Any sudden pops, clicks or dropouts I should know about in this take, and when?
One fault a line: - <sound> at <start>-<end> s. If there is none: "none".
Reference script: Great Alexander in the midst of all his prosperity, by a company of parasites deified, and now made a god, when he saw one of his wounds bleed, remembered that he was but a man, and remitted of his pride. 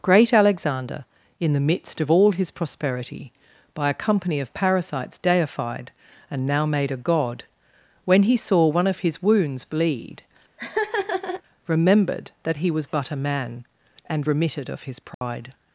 - laugh at 10.6-11.4 s
- dropout at 15.1-15.2 s